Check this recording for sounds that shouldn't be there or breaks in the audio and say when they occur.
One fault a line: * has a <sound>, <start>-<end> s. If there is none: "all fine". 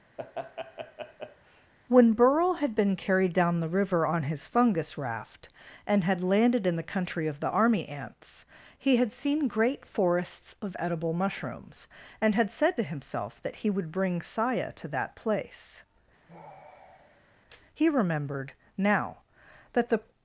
* has a laugh, 0.2-1.7 s
* has a sigh, 16.3-17.4 s